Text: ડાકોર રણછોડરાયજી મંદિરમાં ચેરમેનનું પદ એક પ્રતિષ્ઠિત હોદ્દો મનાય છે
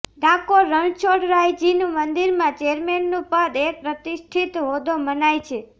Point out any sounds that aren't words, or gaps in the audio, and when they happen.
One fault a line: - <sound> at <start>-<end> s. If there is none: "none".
none